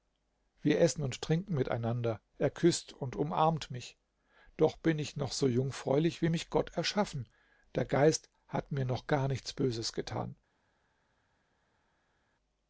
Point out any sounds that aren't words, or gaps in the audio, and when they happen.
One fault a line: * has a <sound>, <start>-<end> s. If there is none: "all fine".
all fine